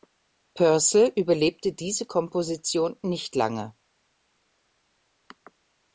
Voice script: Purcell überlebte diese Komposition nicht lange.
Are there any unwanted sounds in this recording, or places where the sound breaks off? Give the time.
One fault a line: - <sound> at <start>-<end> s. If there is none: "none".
none